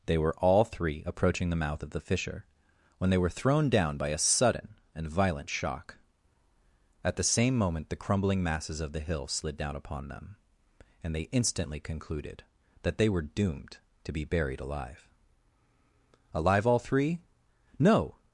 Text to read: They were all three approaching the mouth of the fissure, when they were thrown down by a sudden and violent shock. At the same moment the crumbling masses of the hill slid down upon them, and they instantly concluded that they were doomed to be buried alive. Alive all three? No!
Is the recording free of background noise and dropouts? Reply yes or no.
yes